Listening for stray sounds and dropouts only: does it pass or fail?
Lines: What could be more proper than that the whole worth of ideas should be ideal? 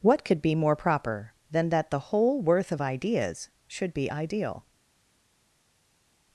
pass